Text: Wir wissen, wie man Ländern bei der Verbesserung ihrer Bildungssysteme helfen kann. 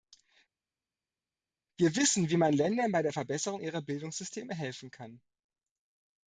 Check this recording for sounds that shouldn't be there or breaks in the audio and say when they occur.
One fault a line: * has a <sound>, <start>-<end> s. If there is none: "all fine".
all fine